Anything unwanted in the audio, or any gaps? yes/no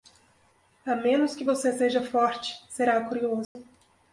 yes